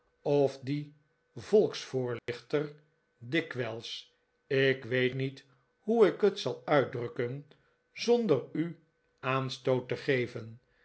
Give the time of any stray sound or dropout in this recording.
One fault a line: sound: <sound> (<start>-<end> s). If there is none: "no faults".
sound: dropout (2.2-2.3 s)